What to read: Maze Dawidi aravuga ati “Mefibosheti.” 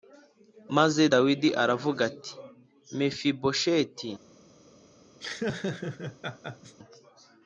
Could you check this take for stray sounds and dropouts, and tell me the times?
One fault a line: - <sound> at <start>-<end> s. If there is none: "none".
- laugh at 5.2-6.8 s